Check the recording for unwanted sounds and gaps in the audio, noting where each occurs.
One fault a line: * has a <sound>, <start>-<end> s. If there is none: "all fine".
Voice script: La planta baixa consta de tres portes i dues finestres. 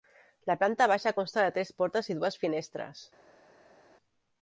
all fine